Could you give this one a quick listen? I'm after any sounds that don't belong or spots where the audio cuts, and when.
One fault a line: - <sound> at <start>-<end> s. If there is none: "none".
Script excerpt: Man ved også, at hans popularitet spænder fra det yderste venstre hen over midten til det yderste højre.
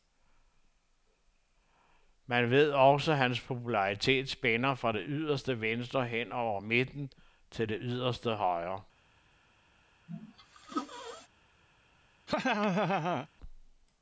- sneeze at 10.1-11.3 s
- laugh at 12.3-13.3 s